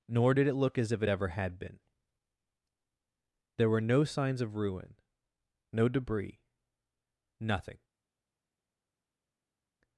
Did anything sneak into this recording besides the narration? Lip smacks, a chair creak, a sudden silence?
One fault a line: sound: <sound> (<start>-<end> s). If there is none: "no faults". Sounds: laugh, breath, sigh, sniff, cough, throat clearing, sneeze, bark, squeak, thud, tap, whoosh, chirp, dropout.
no faults